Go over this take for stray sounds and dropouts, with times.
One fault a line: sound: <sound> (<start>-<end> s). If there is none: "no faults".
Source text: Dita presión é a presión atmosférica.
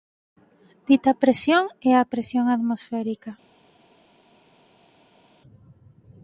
no faults